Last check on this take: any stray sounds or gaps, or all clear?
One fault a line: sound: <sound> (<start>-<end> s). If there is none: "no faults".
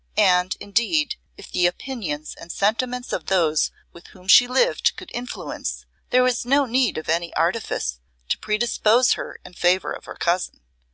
no faults